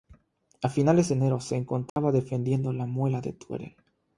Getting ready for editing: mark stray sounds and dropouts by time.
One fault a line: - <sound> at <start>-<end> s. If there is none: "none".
- dropout at 1.9-2.0 s